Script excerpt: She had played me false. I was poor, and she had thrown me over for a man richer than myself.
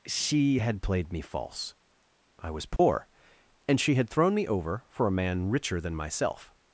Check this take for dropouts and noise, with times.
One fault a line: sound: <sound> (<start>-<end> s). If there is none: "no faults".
sound: dropout (2.8-2.8 s)